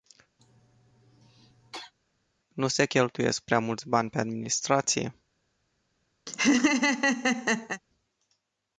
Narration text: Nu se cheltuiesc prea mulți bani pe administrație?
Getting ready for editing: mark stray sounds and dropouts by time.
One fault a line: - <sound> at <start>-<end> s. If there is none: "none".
- cough at 0.4-1.9 s
- laugh at 6.3-7.8 s